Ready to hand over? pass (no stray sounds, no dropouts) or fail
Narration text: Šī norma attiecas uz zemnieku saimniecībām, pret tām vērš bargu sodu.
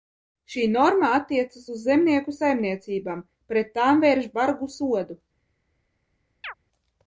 fail